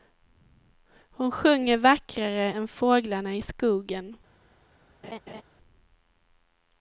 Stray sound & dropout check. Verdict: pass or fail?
fail